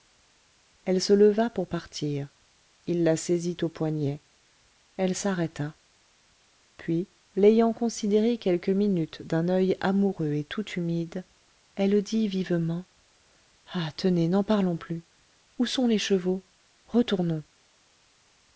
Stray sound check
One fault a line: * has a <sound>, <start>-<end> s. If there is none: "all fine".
all fine